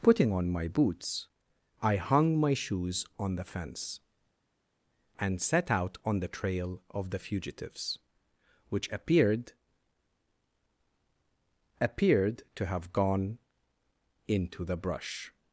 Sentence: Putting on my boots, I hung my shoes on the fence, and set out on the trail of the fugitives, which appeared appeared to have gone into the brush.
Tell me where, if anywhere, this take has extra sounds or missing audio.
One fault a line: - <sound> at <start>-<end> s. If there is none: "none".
none